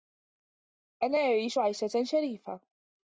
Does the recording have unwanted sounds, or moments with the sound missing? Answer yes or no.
no